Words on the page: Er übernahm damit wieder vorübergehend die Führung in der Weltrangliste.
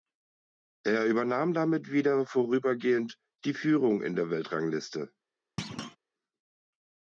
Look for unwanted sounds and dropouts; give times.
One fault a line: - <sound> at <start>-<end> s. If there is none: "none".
- thud at 5.6-6.0 s